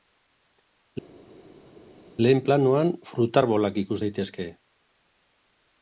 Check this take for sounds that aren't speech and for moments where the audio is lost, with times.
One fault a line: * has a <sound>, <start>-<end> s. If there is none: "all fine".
all fine